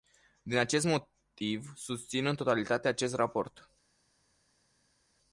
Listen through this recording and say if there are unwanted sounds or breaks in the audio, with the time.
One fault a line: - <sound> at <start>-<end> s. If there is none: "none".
none